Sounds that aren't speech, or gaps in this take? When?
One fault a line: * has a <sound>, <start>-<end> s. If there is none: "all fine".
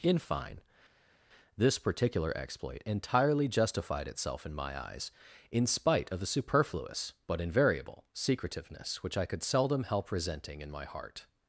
all fine